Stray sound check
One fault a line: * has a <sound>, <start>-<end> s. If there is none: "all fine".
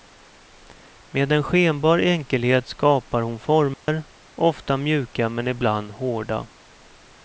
* has a dropout, 3.7-3.9 s